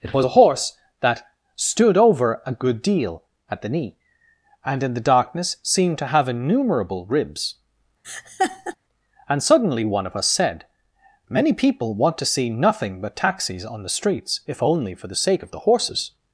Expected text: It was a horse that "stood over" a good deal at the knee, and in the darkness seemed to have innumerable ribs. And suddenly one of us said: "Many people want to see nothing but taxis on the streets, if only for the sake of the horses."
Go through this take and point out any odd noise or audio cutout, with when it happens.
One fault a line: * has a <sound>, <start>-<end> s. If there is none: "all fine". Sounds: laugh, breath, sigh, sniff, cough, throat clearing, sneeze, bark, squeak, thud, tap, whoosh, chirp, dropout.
* has a laugh, 8.0-8.8 s